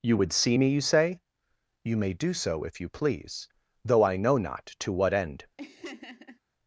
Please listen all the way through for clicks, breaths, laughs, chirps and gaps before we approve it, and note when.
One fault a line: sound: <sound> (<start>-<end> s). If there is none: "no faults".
sound: laugh (5.6-6.4 s)